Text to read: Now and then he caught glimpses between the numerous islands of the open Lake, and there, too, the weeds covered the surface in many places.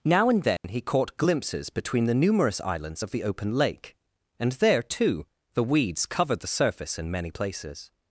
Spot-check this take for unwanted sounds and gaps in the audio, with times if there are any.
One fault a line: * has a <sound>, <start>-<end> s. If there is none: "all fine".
* has a dropout, 0.6-0.6 s